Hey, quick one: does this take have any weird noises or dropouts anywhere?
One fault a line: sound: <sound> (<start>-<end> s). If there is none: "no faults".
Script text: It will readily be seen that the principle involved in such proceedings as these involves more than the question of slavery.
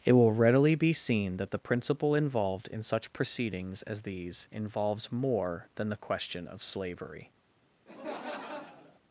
sound: laugh (7.9-9.0 s)